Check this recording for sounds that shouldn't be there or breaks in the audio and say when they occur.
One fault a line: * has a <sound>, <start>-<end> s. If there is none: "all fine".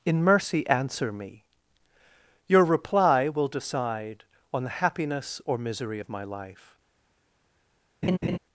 * has a laugh, 8.0-8.4 s